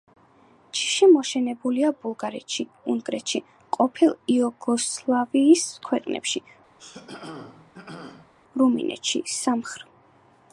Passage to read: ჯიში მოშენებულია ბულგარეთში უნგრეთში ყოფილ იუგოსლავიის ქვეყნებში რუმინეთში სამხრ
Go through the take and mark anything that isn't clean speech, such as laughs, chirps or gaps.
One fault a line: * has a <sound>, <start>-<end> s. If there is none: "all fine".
* has a throat clearing, 6.8-8.3 s